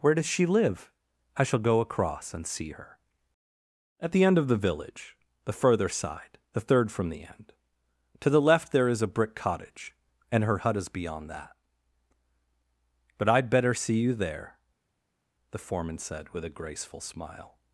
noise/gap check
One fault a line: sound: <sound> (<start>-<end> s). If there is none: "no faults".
no faults